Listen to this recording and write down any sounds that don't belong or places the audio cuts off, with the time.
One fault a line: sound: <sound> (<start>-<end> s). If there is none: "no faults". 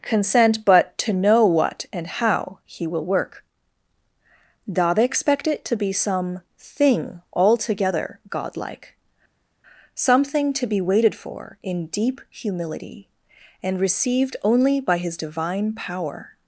no faults